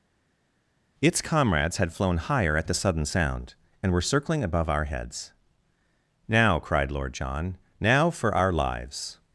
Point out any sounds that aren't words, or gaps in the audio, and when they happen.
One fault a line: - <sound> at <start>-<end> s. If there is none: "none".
none